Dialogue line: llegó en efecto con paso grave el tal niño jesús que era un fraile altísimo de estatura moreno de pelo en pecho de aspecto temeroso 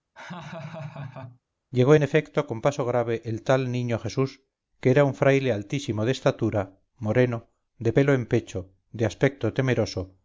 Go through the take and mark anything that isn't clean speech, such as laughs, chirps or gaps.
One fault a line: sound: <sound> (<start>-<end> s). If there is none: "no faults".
sound: laugh (0.2-1.4 s)